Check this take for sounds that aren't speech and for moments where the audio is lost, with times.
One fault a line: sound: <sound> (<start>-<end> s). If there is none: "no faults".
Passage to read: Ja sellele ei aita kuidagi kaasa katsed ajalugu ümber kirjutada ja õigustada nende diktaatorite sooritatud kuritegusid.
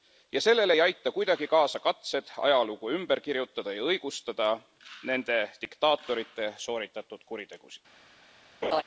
sound: laugh (8.6-8.8 s)